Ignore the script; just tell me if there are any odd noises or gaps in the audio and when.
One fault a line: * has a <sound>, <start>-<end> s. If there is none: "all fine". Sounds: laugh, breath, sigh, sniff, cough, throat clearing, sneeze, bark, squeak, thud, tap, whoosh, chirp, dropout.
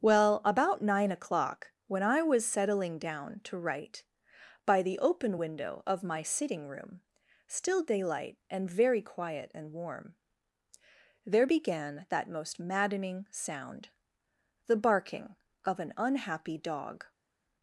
all fine